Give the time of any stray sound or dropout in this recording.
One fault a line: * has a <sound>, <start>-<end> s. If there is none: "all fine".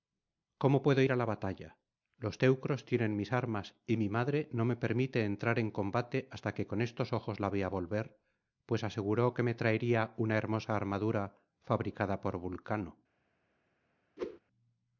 * has a whoosh, 14.2-14.4 s